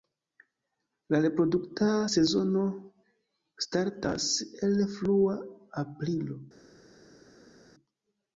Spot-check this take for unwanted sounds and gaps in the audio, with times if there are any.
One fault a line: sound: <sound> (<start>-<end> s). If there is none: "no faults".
no faults